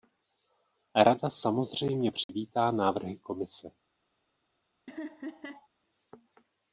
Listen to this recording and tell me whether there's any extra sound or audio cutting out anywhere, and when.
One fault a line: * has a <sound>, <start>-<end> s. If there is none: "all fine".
* has a dropout, 2.2-2.3 s
* has a laugh, 4.9-5.7 s